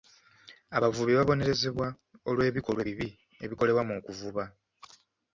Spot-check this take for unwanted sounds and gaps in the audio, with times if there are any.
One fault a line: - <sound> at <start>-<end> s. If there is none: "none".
none